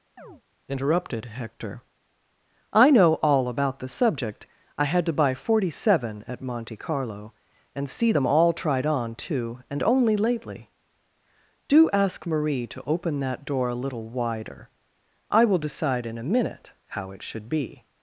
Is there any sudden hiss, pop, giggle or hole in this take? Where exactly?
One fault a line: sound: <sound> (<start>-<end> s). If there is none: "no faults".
sound: chirp (0.2-0.4 s)